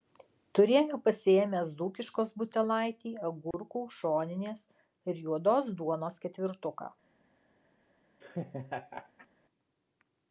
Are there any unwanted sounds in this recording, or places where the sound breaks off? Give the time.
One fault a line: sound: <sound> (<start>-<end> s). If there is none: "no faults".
sound: dropout (3.5-3.5 s)
sound: laugh (8.2-9.3 s)